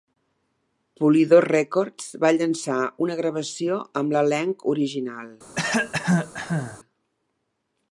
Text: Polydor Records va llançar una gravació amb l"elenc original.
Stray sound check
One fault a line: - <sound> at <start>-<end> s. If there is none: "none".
- cough at 5.6-6.8 s